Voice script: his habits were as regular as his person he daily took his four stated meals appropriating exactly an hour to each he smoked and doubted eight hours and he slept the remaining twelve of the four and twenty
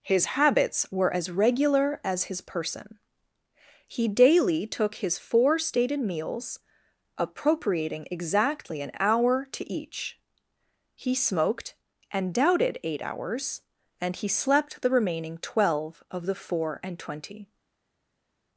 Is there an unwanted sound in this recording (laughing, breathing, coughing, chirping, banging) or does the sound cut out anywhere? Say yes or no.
no